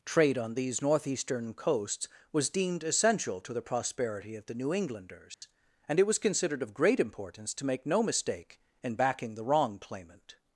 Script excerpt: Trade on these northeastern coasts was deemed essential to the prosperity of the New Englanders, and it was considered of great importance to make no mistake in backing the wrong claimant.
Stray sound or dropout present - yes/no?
yes